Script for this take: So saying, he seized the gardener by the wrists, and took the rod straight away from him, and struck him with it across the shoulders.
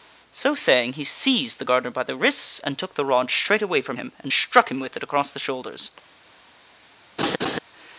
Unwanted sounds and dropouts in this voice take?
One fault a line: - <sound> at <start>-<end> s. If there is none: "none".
- laugh at 7.2-7.6 s